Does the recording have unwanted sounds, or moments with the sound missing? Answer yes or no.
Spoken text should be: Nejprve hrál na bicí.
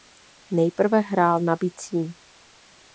no